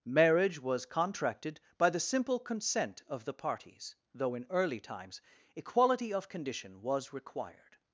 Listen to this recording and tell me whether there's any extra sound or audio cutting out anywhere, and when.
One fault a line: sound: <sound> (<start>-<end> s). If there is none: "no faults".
no faults